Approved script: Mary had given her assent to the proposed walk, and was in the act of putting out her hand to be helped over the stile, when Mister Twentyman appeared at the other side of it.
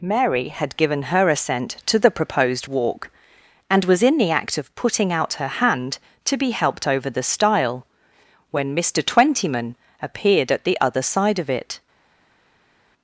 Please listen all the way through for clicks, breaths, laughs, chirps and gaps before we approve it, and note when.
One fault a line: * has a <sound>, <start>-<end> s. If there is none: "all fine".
all fine